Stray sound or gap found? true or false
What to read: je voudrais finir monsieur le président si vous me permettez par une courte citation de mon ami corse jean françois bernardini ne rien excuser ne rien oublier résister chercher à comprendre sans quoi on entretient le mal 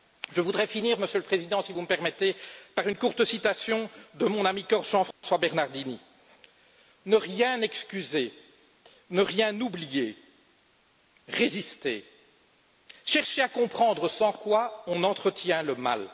true